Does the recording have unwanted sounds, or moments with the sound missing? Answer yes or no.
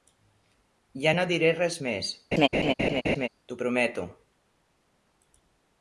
yes